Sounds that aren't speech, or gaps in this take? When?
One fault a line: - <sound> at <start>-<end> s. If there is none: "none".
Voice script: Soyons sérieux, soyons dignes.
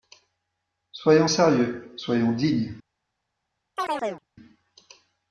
- chirp at 3.8-4.2 s